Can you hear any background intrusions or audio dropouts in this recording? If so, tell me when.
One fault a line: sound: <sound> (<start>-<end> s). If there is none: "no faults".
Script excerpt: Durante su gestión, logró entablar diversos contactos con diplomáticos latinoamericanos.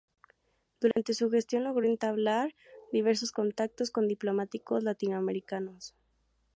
sound: dropout (0.9-1.0 s)